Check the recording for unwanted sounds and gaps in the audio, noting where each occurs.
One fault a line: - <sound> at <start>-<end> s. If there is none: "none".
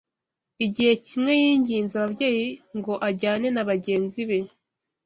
none